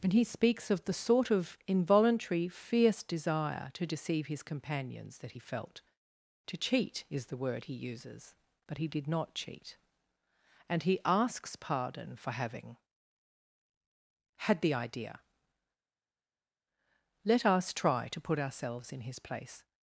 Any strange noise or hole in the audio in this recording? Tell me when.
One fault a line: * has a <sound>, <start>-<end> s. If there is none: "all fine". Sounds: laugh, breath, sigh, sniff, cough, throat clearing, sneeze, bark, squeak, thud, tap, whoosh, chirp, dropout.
all fine